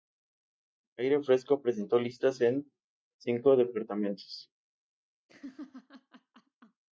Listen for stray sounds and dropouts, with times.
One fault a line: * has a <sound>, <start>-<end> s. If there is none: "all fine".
* has a laugh, 5.3-6.8 s